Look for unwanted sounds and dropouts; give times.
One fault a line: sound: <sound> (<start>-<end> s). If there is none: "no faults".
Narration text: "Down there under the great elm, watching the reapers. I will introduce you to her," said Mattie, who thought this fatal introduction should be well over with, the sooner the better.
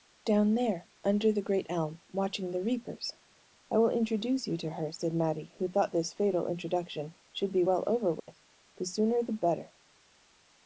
sound: dropout (8.2-8.3 s)